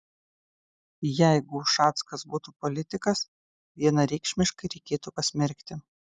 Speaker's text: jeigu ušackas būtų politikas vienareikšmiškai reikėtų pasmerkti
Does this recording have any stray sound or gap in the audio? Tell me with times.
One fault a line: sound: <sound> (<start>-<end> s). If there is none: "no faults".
no faults